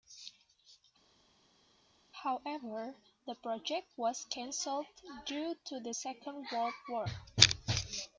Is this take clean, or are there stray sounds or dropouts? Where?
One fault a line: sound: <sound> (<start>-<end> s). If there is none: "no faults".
no faults